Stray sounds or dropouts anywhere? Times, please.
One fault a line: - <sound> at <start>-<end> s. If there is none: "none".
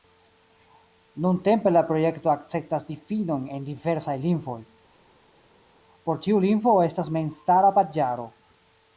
none